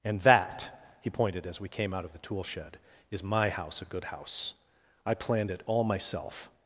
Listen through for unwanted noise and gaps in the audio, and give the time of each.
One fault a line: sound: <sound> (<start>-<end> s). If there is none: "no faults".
no faults